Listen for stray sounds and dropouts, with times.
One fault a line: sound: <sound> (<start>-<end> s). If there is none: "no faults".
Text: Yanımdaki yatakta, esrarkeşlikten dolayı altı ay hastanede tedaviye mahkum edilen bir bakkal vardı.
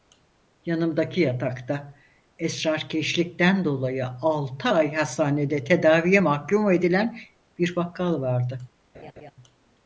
sound: laugh (8.9-9.3 s)